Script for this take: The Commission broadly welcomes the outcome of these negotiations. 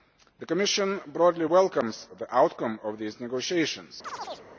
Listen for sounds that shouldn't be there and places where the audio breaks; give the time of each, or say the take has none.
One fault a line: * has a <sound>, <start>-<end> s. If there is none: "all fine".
* has a chirp, 4.0-4.5 s